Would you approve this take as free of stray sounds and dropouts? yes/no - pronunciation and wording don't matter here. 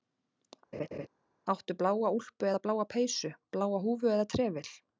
no